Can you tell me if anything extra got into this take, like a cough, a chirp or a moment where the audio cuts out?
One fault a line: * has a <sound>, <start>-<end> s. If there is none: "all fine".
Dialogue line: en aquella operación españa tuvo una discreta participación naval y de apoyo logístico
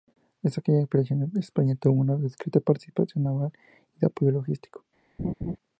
* has a laugh, 5.2-5.6 s